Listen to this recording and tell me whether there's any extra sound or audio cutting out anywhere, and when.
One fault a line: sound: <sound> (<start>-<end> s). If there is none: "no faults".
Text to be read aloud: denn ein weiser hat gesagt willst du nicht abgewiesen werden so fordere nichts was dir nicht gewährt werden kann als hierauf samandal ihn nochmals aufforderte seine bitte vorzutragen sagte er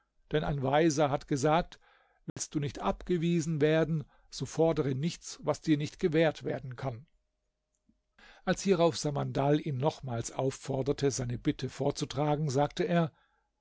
sound: dropout (2.3-2.4 s)